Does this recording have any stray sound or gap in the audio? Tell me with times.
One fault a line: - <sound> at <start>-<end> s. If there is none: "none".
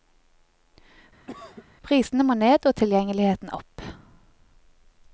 - cough at 1.3-1.7 s